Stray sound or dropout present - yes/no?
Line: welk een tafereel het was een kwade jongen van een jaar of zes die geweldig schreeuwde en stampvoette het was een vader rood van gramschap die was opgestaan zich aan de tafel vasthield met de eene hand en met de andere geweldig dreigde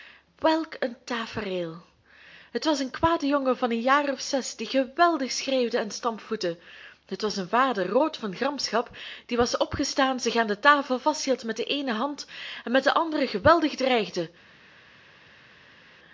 no